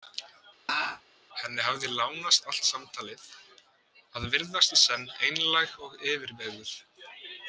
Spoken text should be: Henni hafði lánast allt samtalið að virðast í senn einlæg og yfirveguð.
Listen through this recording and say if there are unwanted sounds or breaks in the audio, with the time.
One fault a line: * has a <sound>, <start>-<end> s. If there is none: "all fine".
* has a laugh, 0.7-1.0 s